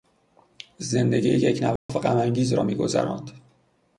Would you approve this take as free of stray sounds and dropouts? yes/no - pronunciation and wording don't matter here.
no